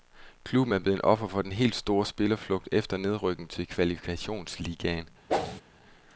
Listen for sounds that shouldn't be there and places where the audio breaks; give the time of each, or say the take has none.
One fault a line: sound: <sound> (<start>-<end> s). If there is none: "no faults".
sound: whoosh (5.3-5.6 s)